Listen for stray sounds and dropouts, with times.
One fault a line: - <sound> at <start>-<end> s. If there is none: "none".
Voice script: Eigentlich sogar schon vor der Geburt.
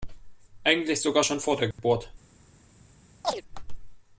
- dropout at 1.7-1.8 s
- chirp at 3.2-3.4 s